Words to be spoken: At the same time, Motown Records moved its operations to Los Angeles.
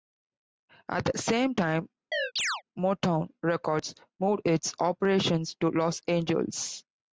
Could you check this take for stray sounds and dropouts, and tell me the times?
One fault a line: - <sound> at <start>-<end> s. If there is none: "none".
- chirp at 2.1-2.6 s